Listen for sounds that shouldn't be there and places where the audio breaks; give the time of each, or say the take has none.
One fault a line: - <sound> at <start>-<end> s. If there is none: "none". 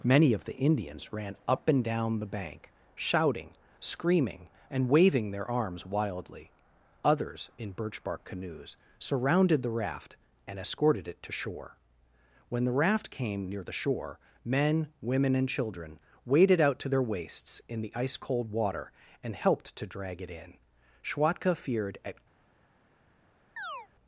- chirp at 23.6-23.9 s